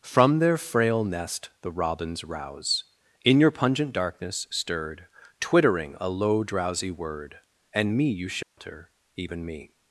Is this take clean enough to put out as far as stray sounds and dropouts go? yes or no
no